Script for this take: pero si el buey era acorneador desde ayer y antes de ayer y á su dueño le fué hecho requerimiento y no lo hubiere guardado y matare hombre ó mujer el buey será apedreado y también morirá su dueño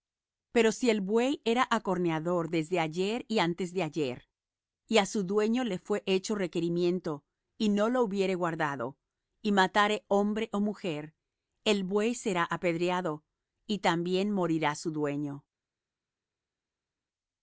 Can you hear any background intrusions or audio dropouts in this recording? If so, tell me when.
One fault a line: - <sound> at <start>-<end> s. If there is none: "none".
none